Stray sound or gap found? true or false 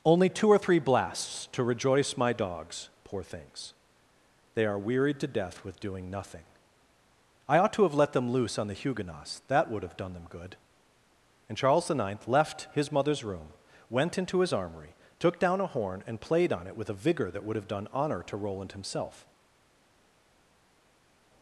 false